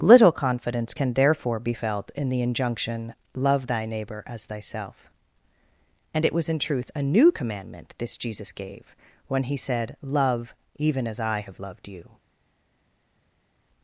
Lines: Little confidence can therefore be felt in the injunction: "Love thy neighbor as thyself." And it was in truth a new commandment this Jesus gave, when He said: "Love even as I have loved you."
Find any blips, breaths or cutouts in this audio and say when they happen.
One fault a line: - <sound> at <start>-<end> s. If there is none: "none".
none